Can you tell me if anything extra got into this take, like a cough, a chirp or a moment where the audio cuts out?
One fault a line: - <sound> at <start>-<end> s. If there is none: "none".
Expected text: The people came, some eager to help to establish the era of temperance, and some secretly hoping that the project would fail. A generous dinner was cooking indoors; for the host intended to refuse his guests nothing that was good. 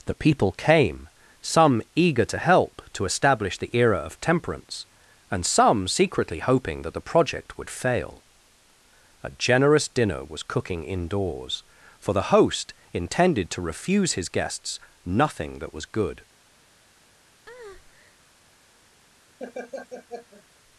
- breath at 17.5-18.2 s
- laugh at 19.4-20.4 s